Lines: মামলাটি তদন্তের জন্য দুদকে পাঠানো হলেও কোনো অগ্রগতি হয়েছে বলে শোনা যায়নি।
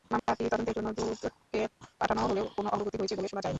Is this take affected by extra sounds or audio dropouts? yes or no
yes